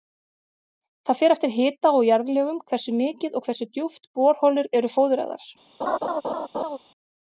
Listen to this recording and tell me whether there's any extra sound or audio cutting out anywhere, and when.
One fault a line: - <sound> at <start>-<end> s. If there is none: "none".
- laugh at 5.8-6.8 s